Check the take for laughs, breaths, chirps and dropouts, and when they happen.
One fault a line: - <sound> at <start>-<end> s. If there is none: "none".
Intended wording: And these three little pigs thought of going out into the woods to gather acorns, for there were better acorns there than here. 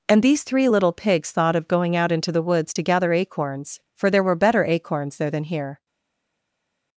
none